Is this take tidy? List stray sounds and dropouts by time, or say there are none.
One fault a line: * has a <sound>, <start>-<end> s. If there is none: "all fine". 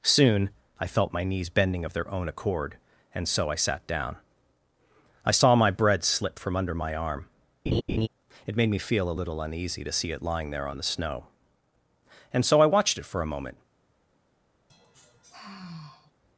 * has a laugh, 7.7-8.1 s
* has a sigh, 14.7-16.1 s